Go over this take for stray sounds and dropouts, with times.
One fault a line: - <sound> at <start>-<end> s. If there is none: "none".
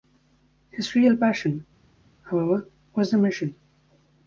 none